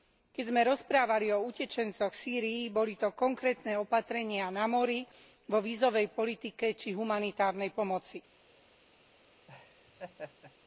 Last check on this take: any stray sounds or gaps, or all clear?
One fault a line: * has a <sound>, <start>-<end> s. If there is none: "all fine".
* has a laugh, 9.5-10.6 s